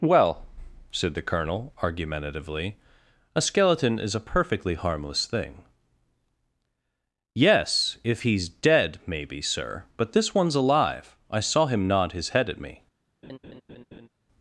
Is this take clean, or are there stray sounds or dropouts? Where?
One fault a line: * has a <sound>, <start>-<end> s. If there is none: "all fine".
* has a laugh, 13.2-14.1 s